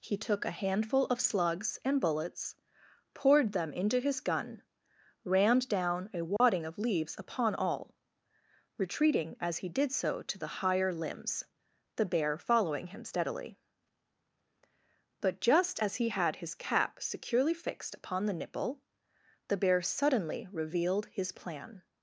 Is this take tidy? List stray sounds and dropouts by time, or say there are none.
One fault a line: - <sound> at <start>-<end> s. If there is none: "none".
- dropout at 6.4-6.4 s